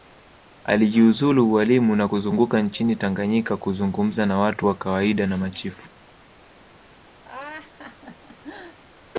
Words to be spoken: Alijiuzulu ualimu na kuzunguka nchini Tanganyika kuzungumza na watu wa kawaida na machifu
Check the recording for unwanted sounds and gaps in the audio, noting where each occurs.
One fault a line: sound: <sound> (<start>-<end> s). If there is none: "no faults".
sound: laugh (7.2-8.8 s)